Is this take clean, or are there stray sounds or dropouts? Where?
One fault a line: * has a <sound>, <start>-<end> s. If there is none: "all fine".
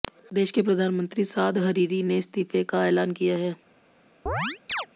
* has a chirp, 4.3-4.9 s